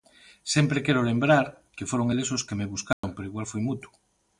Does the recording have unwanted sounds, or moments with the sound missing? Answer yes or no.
yes